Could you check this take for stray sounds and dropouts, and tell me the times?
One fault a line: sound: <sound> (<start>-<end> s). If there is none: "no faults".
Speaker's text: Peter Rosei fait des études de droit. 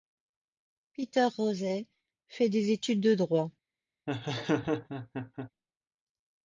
sound: laugh (4.1-5.5 s)